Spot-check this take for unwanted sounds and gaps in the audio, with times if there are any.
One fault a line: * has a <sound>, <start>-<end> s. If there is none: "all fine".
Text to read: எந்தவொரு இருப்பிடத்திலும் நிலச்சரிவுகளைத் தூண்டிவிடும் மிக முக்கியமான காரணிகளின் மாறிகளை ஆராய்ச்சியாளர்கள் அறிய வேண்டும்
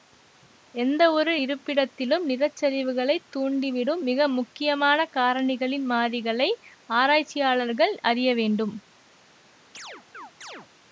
* has a chirp, 9.7-10.7 s